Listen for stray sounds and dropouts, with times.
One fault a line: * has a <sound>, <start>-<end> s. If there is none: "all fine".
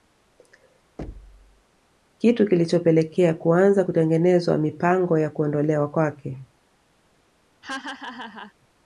* has a thud, 1.0-1.6 s
* has a laugh, 7.6-8.5 s